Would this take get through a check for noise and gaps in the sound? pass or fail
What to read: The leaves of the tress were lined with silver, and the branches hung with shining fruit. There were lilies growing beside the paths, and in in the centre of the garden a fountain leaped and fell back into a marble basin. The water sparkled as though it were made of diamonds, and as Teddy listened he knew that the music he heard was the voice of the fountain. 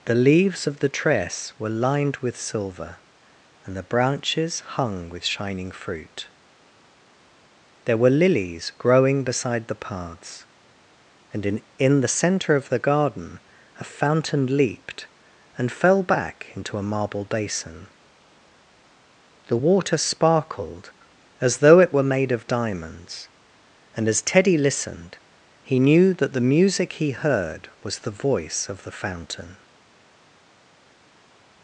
pass